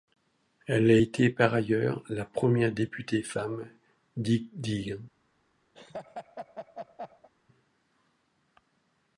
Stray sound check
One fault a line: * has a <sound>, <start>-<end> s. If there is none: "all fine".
* has a laugh, 5.7-7.3 s